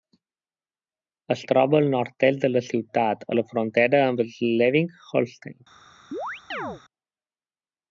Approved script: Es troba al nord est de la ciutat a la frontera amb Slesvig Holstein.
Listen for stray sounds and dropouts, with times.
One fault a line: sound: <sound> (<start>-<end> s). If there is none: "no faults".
sound: chirp (6.1-6.8 s)